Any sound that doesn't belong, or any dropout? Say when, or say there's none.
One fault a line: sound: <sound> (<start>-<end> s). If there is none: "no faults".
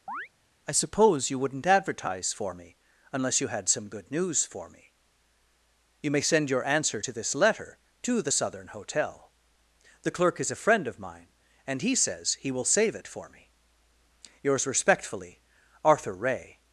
sound: chirp (0.1-0.3 s)